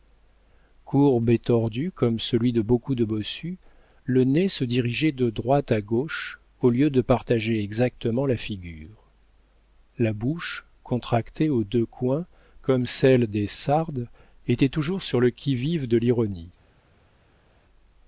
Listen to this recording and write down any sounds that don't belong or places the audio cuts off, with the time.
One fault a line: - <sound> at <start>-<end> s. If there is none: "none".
none